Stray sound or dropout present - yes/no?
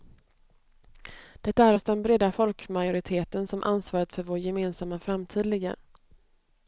no